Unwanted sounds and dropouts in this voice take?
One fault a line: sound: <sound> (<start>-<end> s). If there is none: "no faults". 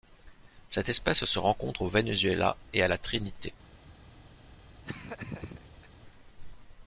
sound: laugh (4.8-5.9 s)